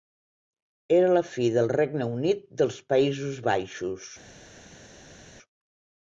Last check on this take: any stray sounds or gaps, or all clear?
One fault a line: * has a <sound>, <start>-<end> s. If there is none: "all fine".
all fine